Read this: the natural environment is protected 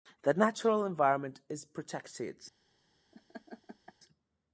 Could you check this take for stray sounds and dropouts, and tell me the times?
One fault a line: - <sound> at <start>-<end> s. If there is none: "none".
- laugh at 3.1-3.9 s